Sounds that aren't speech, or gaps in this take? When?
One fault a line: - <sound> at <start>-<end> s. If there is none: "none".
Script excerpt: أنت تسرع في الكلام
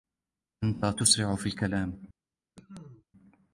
- cough at 2.6-3.1 s